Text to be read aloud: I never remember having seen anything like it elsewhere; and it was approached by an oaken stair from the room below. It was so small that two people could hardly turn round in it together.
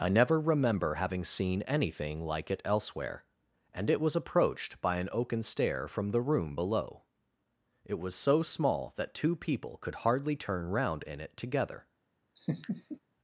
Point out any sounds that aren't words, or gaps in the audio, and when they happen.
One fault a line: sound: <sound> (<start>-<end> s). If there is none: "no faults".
sound: laugh (12.4-13.0 s)